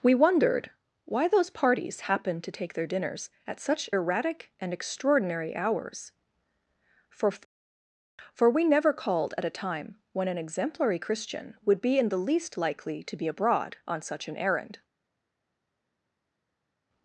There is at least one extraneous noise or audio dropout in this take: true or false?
false